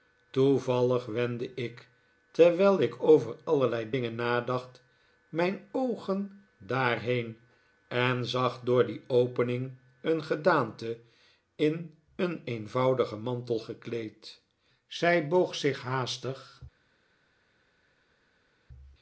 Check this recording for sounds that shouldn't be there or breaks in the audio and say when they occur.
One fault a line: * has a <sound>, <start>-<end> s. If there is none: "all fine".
all fine